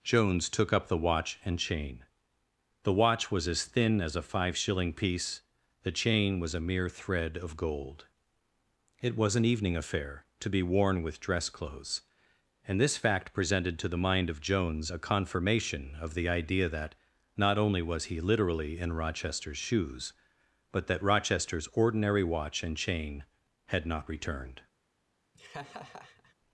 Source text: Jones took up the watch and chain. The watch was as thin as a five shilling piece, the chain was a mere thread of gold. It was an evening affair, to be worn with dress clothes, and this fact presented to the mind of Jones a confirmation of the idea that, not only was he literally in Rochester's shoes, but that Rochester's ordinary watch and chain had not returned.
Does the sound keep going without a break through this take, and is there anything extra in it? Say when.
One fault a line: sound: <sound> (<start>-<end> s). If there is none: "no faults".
sound: laugh (25.3-26.3 s)